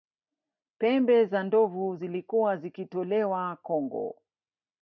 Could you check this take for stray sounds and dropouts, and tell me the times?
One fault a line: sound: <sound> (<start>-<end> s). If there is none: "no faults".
no faults